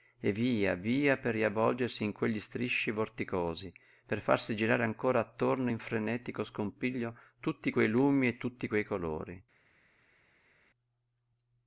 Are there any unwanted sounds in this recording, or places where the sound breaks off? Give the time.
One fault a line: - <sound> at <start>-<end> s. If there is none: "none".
none